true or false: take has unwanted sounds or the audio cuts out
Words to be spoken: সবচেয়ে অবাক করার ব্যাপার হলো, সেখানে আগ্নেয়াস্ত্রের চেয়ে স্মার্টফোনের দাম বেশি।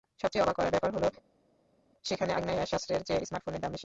false